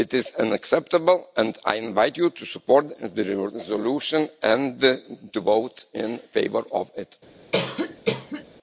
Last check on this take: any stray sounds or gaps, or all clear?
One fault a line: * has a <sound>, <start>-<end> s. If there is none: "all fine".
* has a cough, 7.5-8.4 s